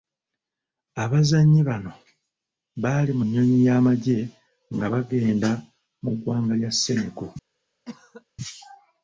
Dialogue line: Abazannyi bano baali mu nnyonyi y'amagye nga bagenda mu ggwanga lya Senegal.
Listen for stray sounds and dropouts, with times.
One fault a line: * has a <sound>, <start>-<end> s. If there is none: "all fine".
* has a cough, 7.8-8.2 s